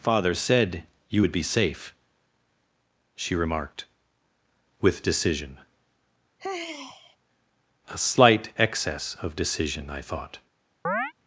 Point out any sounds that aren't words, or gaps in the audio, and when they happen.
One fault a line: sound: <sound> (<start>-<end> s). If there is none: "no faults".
sound: sigh (6.4-7.2 s)
sound: chirp (10.8-11.1 s)